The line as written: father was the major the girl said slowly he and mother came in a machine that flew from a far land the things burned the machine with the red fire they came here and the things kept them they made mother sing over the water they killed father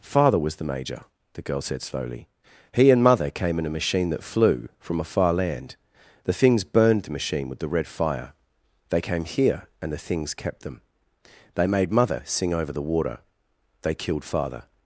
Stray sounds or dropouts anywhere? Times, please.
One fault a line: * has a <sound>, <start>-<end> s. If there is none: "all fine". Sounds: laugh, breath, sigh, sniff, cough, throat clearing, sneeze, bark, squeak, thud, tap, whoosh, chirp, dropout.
all fine